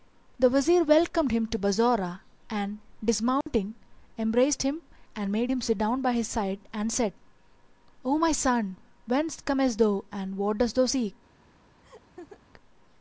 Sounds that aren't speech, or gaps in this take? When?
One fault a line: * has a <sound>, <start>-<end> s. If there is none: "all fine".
* has a dropout, 3.4-3.5 s
* has a laugh, 11.8-12.4 s